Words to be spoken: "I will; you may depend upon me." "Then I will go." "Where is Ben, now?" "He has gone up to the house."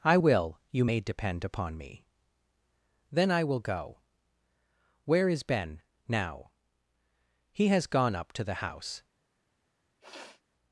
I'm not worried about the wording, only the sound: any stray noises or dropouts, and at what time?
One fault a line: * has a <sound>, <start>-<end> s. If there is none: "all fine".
* has a sniff, 10.0-10.4 s